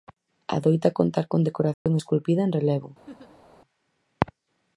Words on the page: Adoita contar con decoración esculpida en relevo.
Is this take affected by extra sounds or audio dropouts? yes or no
yes